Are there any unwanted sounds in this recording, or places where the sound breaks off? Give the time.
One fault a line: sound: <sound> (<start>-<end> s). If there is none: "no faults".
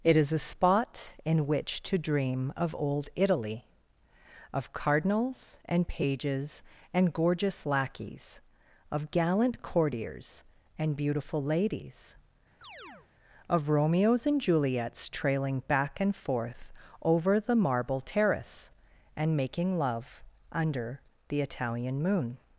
sound: chirp (12.6-13.1 s)